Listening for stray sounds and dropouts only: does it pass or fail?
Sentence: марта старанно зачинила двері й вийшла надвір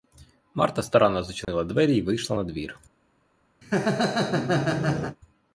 fail